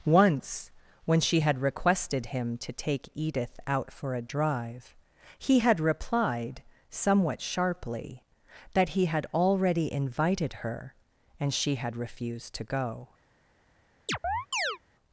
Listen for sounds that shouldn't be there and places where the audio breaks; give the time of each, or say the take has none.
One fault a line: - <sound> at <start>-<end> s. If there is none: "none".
- chirp at 14.1-14.8 s